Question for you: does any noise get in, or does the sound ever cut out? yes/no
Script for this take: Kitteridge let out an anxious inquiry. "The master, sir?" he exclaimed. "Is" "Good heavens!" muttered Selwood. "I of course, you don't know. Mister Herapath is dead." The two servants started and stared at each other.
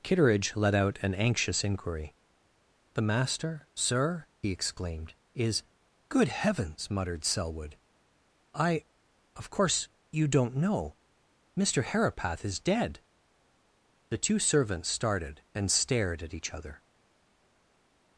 no